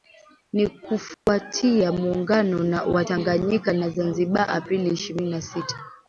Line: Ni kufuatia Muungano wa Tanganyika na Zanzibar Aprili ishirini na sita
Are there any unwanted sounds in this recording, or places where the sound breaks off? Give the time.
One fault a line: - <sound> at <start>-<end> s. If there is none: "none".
- dropout at 1.1-1.3 s